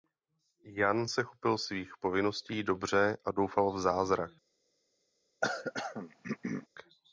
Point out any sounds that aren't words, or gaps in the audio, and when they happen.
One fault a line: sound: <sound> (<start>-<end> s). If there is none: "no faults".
sound: throat clearing (5.4-6.7 s)